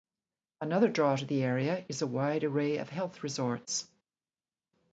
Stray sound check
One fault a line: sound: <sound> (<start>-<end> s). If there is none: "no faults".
no faults